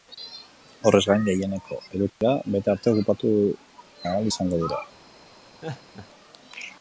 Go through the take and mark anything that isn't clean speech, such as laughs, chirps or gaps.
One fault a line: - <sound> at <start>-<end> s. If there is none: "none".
- dropout at 2.1-2.2 s
- laugh at 5.6-6.1 s